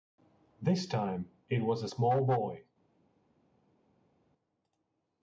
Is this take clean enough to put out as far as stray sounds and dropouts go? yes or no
yes